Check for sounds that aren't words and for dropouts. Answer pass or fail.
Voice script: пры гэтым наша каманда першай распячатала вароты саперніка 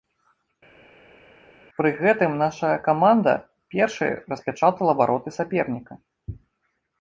pass